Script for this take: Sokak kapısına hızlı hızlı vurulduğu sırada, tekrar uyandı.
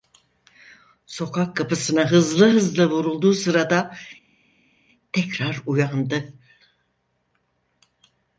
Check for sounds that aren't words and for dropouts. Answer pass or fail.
pass